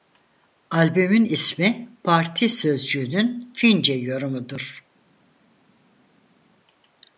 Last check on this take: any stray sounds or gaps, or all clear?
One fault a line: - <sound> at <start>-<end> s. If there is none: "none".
none